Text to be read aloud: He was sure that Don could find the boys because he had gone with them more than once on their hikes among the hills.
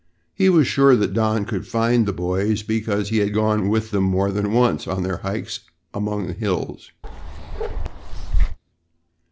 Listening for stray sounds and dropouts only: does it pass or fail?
fail